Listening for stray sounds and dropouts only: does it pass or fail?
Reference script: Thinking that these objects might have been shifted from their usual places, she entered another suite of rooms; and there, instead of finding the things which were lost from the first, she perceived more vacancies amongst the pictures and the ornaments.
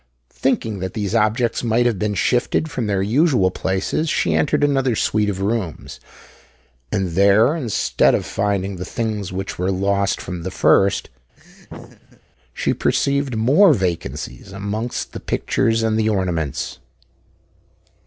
fail